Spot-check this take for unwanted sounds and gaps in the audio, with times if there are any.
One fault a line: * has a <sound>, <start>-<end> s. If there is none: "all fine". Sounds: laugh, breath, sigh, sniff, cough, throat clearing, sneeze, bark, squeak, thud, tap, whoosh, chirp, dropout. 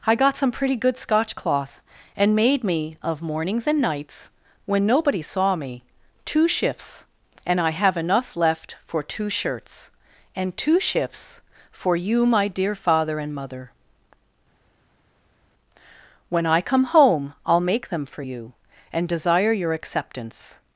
all fine